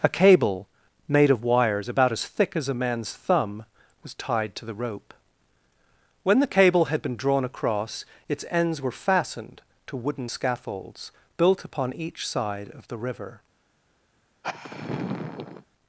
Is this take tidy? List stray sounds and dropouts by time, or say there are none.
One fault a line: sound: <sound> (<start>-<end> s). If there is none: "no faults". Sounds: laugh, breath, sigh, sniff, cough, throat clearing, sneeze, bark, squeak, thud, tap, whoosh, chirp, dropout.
sound: sigh (14.4-15.7 s)